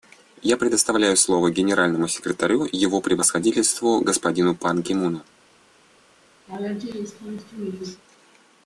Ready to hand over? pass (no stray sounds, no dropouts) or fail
fail